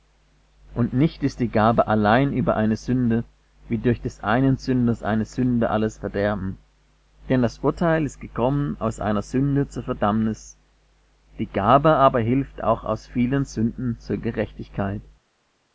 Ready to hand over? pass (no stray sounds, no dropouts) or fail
pass